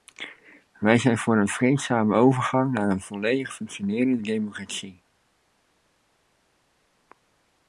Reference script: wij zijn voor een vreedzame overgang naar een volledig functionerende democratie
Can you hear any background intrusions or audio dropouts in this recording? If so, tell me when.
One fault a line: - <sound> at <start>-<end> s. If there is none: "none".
none